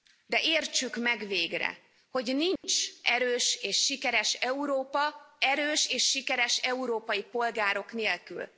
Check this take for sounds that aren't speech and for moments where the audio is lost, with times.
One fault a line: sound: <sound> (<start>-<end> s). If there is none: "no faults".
sound: dropout (2.6-2.6 s)